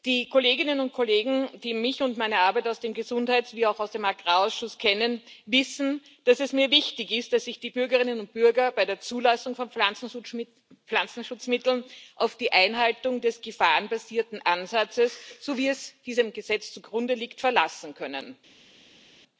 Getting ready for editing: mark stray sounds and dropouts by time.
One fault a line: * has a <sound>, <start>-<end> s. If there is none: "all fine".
all fine